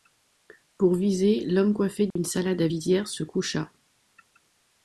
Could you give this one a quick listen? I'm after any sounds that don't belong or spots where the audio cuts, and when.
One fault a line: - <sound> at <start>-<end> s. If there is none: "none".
- dropout at 2.1-2.2 s